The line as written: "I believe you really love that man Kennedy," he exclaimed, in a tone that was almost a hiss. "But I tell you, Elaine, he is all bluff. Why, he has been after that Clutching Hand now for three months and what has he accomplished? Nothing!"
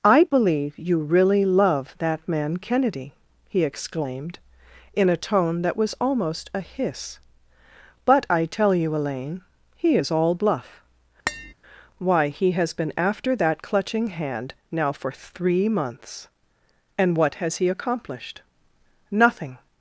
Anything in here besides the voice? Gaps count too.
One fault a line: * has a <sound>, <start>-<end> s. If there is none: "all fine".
* has a tap, 11.3-11.5 s